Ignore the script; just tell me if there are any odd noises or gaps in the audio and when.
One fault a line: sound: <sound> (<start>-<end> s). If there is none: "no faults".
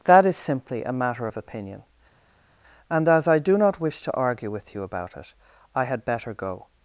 no faults